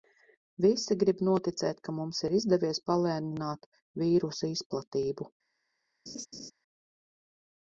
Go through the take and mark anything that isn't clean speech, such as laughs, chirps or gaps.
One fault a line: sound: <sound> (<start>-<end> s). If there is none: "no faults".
sound: laugh (6.1-6.5 s)